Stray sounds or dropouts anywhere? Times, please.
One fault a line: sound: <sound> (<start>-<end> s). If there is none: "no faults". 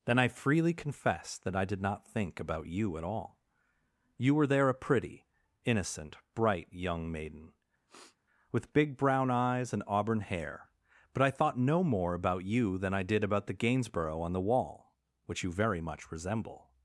sound: sniff (7.9-8.2 s)